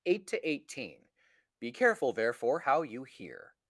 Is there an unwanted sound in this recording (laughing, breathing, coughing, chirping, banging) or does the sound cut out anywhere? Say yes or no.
no